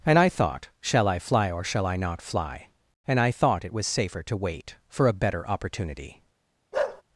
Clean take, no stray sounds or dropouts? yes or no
no